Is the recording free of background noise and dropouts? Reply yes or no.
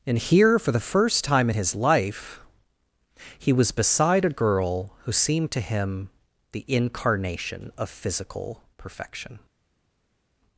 yes